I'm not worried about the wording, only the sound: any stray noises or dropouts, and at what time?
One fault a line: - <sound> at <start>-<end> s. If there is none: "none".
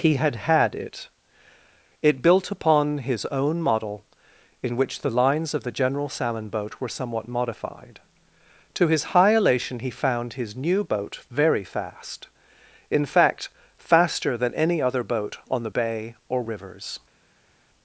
none